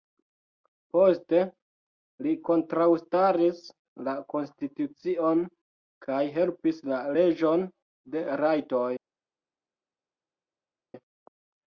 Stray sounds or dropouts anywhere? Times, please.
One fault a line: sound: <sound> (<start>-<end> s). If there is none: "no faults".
no faults